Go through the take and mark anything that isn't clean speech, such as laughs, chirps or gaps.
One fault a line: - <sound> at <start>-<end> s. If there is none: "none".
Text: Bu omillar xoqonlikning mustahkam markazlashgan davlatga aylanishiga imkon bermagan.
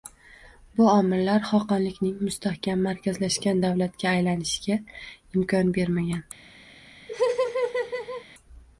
- laugh at 7.1-8.3 s